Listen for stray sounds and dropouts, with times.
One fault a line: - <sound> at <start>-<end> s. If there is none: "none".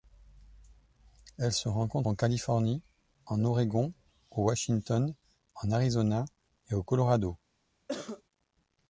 - cough at 7.9-8.2 s